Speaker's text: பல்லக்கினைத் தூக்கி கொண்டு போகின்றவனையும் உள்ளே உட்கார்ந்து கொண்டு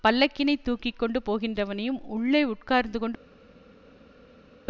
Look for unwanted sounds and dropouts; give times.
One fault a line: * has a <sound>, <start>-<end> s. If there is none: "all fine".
all fine